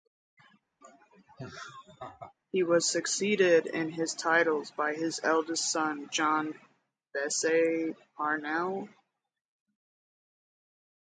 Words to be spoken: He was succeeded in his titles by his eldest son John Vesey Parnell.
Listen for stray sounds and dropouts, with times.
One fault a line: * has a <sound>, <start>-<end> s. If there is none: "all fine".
* has a laugh, 0.8-2.3 s